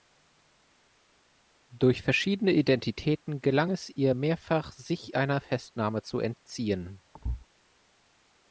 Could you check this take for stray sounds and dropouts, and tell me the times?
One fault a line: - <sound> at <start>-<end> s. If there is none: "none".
- thud at 7.1-7.5 s